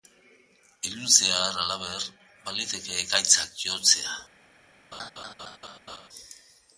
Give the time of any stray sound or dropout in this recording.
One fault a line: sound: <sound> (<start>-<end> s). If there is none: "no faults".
sound: laugh (4.9-6.1 s)